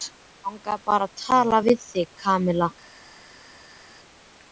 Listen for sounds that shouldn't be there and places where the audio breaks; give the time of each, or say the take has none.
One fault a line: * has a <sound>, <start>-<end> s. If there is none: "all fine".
all fine